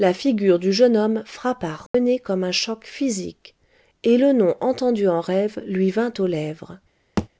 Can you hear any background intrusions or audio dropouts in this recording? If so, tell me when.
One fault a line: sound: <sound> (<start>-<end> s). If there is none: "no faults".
sound: dropout (1.9-1.9 s)
sound: thud (7.2-7.3 s)